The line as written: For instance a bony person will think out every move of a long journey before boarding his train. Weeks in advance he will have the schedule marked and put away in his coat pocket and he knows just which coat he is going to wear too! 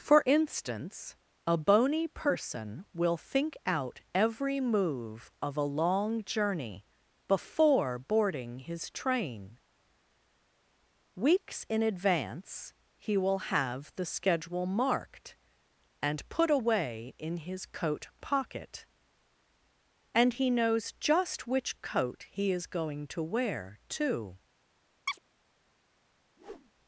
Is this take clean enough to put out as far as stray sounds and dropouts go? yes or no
no